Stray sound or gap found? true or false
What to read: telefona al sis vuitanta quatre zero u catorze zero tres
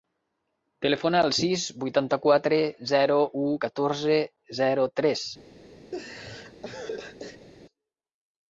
true